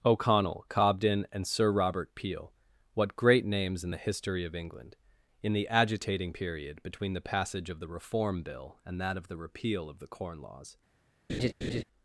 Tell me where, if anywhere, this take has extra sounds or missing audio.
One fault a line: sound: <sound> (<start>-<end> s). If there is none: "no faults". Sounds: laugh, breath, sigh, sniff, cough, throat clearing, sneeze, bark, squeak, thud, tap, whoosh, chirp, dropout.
sound: laugh (11.3-11.8 s)